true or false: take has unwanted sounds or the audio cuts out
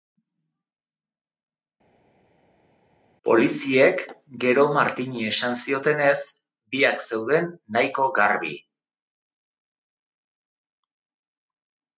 false